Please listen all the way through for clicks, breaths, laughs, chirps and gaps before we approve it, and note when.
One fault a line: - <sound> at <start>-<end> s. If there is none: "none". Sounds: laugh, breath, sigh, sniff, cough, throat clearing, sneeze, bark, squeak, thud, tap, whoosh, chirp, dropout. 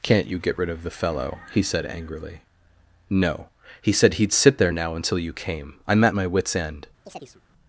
- chirp at 7.1-7.4 s